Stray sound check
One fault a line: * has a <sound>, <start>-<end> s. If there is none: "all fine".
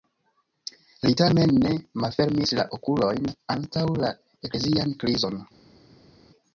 all fine